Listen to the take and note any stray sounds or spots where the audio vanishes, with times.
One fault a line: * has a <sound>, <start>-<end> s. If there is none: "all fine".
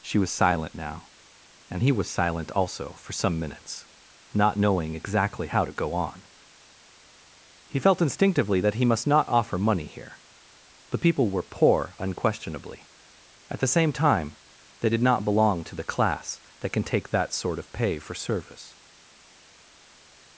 all fine